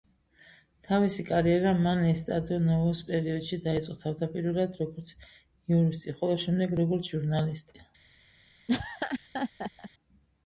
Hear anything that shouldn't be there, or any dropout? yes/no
yes